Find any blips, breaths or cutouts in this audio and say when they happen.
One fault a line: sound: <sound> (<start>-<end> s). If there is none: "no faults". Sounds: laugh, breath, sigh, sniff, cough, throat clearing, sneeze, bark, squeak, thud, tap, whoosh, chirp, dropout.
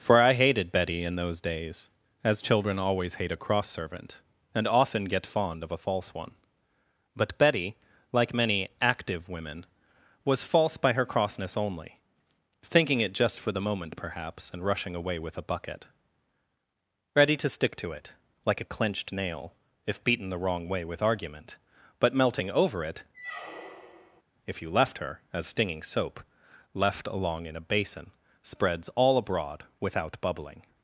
sound: squeak (23.1-24.2 s)